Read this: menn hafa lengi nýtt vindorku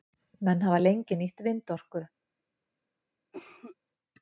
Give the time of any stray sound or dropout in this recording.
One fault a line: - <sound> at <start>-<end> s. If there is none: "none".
- cough at 3.3-3.8 s